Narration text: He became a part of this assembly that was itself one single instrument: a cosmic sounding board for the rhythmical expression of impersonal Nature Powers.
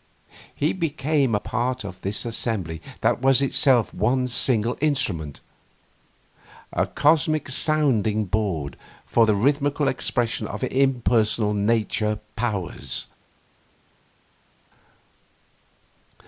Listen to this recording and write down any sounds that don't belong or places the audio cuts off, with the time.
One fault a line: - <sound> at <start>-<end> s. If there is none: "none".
none